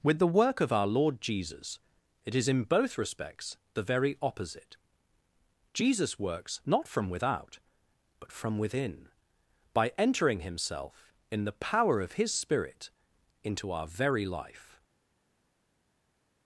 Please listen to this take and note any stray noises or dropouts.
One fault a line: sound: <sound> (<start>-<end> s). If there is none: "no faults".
no faults